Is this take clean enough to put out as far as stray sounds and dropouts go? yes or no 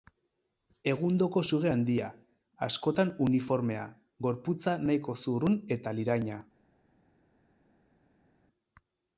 yes